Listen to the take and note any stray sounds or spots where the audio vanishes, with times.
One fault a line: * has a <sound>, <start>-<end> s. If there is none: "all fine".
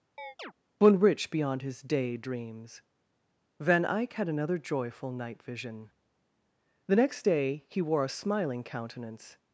* has a chirp, 0.2-0.5 s